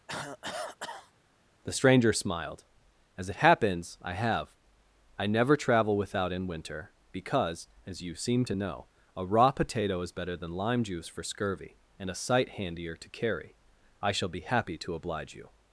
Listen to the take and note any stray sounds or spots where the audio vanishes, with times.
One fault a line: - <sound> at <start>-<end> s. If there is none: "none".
- cough at 0.1-1.1 s